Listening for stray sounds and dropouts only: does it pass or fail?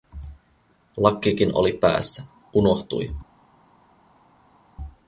pass